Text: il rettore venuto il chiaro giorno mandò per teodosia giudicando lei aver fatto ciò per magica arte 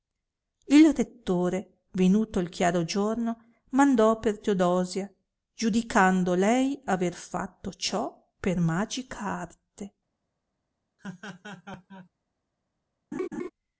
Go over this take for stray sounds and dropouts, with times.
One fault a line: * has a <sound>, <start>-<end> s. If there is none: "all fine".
* has a laugh, 11.0-12.1 s
* has a laugh, 13.1-13.5 s